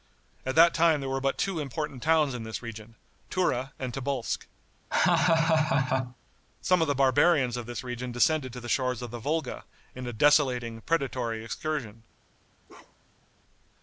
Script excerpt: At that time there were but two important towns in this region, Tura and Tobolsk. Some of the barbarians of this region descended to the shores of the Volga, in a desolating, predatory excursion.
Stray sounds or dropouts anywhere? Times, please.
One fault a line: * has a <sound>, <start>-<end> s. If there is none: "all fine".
* has a laugh, 4.9-6.2 s
* has a bark, 12.7-13.3 s